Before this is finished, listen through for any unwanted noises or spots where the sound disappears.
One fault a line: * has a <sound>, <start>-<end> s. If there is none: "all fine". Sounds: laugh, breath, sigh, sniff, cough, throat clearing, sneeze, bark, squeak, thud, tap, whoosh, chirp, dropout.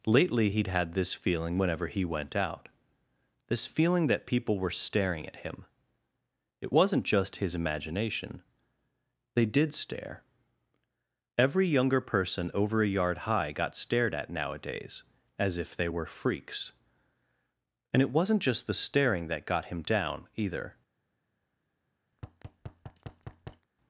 * has a thud, 22.1-23.7 s